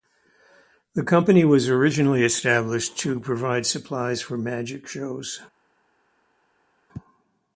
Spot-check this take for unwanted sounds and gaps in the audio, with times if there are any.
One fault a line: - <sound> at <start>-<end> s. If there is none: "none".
none